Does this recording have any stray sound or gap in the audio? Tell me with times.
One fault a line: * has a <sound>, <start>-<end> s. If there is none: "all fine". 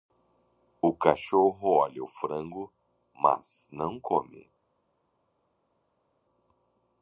all fine